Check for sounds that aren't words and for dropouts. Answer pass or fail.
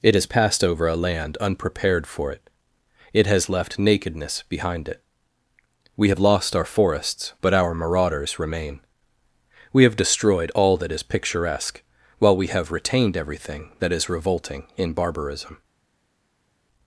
pass